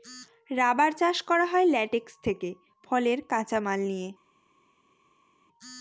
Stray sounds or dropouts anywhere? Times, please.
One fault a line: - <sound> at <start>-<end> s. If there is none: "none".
none